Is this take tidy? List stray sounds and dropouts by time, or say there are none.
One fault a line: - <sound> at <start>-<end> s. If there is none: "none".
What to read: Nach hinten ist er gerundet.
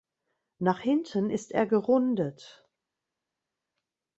none